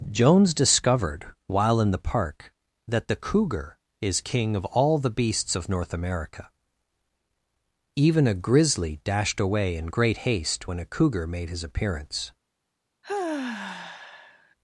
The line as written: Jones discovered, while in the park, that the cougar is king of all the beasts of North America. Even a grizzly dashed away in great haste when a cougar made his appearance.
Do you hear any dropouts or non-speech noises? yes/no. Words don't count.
yes